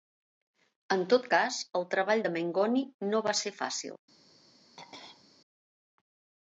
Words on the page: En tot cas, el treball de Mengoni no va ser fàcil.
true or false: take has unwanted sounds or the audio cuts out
true